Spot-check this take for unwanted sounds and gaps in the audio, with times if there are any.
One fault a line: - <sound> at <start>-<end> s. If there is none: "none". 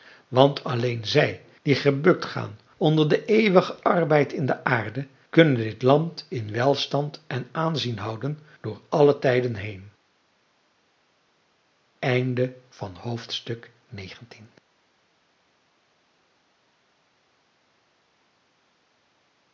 none